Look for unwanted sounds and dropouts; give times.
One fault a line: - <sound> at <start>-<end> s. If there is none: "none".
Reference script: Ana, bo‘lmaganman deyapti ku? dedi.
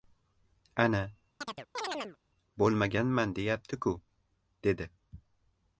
- chirp at 1.4-2.2 s